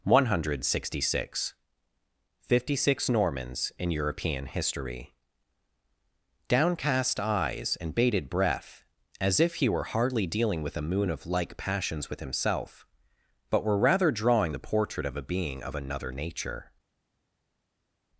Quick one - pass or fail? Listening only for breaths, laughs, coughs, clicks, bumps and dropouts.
pass